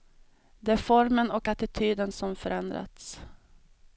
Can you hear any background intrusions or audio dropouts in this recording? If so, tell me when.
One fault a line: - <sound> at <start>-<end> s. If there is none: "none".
none